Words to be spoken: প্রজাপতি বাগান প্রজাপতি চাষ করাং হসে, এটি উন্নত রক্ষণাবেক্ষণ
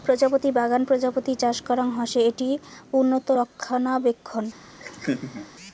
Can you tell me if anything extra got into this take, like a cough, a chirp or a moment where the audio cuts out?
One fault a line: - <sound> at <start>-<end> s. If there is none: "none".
- laugh at 4.8-5.5 s